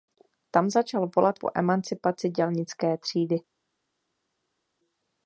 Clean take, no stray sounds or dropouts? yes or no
yes